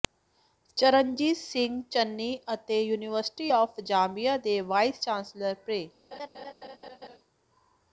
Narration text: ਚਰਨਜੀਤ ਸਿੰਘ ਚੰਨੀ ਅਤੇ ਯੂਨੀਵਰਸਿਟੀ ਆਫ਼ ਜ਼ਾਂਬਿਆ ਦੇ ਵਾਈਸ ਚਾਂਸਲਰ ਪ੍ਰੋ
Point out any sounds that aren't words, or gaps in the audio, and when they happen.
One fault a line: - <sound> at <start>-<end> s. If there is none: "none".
- laugh at 6.1-7.2 s